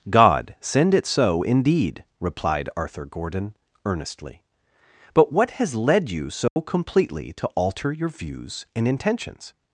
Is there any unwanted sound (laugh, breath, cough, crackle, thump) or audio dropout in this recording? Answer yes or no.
yes